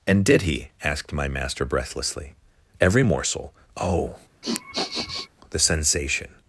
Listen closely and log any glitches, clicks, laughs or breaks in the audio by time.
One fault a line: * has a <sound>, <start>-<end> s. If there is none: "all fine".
* has a sniff, 4.4-5.3 s